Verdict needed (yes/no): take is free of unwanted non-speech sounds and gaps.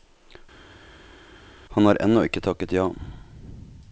yes